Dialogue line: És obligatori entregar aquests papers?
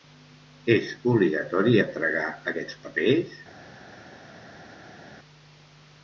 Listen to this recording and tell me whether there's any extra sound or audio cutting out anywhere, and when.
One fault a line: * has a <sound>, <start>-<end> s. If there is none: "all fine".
all fine